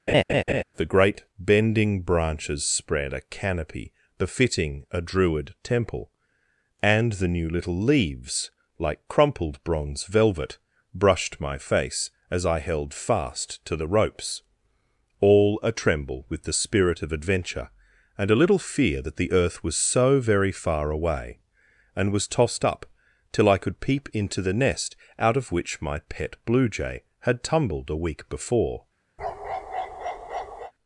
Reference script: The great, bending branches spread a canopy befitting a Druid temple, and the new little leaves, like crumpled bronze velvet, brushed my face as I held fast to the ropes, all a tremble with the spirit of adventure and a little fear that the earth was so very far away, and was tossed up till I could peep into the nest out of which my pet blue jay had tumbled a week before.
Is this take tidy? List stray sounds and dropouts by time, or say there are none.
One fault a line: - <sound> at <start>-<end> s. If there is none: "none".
- laugh at 0.1-0.6 s
- bark at 29.2-30.7 s